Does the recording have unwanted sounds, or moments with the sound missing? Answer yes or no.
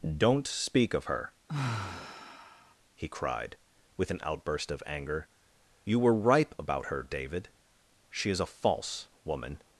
yes